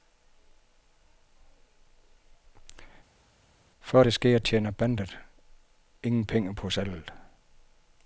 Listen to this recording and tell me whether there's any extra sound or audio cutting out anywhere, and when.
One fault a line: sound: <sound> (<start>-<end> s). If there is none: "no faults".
no faults